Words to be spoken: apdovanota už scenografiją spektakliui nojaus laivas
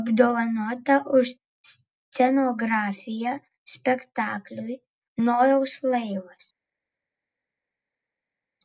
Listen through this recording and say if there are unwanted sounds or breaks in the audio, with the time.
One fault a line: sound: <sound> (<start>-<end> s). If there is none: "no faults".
no faults